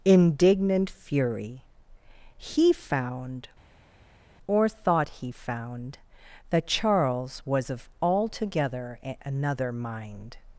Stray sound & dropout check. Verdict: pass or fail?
pass